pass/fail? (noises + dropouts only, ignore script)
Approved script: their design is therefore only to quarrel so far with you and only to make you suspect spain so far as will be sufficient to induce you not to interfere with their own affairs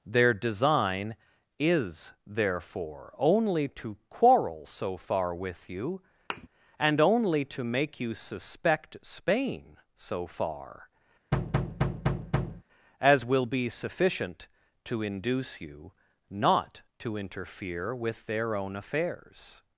fail